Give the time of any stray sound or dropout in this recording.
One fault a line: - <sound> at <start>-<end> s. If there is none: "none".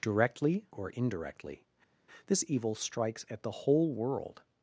none